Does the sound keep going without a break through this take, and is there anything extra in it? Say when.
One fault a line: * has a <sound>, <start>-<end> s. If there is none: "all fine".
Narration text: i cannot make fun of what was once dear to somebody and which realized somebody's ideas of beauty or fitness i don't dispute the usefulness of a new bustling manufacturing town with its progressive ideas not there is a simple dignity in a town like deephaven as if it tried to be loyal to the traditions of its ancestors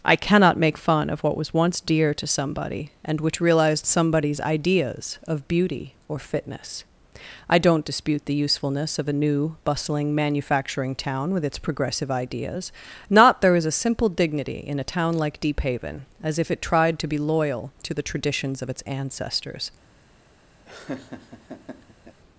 * has a laugh, 20.7-22.2 s